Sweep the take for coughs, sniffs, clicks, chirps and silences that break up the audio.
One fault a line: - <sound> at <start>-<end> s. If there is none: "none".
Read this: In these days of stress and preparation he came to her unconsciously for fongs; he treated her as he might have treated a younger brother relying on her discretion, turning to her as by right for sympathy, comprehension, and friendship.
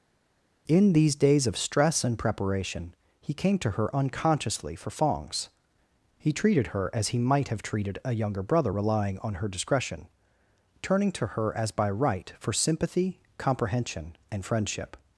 none